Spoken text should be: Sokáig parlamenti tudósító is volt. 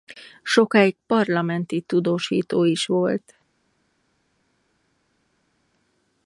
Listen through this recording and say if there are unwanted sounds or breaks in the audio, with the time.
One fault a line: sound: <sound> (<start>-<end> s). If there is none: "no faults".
no faults